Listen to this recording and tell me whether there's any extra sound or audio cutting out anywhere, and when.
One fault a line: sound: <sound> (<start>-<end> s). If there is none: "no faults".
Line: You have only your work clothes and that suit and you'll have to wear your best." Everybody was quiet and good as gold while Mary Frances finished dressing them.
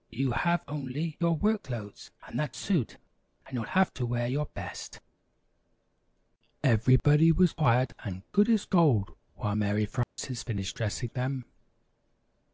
sound: dropout (10.0-10.2 s)